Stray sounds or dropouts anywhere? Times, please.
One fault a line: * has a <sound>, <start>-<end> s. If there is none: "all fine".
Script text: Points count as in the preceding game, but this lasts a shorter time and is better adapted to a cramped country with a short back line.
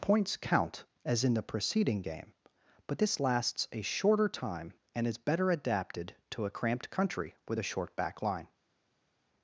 all fine